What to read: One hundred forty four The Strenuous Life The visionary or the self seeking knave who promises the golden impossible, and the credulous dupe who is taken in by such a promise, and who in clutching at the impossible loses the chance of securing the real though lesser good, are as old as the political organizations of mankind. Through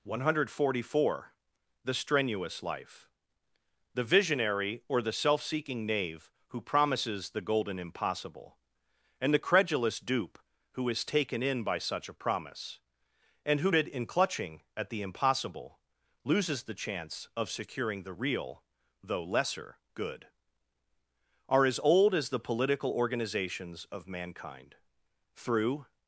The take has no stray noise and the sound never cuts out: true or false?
true